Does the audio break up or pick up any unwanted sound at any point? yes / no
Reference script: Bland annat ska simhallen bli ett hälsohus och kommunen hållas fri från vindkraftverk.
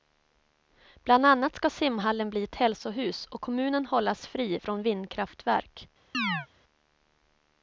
yes